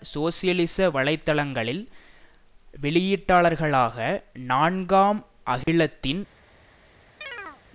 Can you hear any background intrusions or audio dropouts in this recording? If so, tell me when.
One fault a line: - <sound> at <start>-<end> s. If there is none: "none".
- dropout at 5.6-5.7 s
- chirp at 7.2-7.6 s